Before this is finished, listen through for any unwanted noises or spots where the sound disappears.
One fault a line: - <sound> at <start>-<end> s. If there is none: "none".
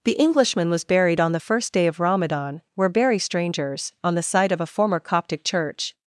none